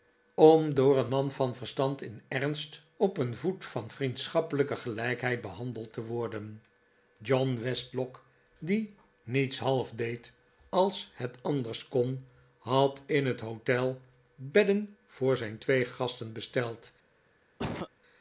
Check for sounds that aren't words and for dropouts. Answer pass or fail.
fail